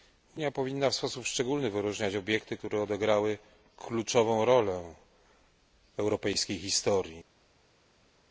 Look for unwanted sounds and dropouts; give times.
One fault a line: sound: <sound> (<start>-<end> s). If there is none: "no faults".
no faults